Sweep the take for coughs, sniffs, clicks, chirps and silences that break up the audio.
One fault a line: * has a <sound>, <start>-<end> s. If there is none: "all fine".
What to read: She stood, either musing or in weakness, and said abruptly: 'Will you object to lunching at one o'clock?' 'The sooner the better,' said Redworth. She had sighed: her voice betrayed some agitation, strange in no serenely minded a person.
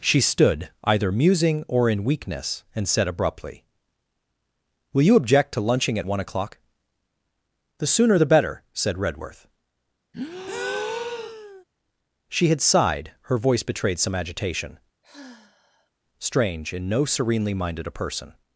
* has a breath, 10.1-11.6 s
* has a sigh, 15.0-15.9 s